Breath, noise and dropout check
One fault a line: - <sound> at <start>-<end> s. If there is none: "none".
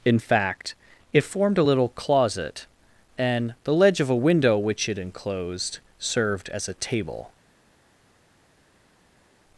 none